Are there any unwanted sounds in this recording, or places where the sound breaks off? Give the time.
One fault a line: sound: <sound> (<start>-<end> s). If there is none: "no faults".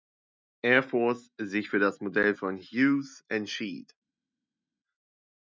no faults